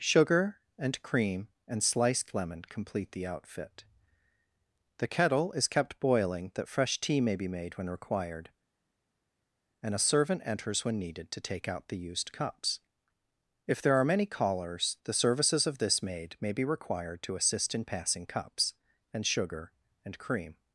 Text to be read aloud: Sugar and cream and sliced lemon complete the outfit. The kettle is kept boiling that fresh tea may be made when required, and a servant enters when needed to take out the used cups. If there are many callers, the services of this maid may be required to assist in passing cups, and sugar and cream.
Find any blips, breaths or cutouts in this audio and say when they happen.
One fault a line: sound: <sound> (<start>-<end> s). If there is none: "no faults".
no faults